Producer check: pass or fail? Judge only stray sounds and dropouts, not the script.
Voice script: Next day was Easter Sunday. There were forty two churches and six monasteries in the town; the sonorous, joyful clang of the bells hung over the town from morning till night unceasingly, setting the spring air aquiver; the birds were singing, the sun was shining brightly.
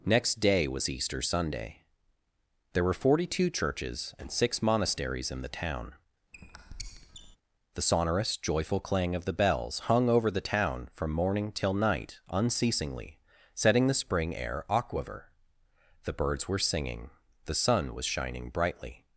fail